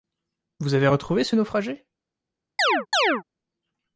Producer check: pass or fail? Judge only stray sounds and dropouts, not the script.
fail